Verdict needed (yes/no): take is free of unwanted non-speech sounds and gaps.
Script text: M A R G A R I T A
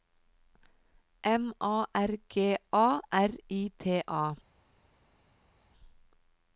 yes